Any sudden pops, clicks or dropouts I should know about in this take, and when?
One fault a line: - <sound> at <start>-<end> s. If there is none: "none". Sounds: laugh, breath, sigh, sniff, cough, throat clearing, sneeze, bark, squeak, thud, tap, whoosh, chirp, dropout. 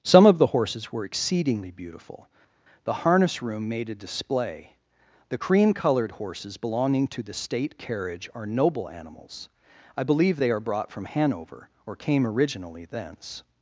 none